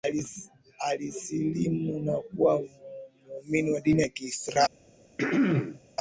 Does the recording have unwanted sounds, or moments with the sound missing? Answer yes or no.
yes